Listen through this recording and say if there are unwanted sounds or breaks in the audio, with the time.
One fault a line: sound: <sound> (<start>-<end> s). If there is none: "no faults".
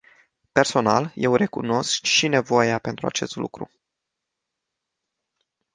no faults